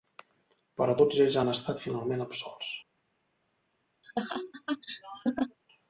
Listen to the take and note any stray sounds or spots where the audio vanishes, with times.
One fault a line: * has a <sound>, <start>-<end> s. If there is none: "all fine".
* has a laugh, 4.0-5.6 s